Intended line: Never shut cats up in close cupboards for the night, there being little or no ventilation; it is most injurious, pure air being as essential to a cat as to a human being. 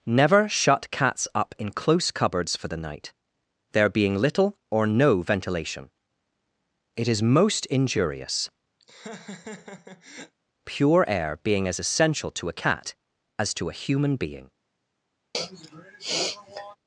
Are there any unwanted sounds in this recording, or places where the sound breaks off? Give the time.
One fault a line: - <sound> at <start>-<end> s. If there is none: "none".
- laugh at 8.8-10.4 s
- sniff at 15.3-16.8 s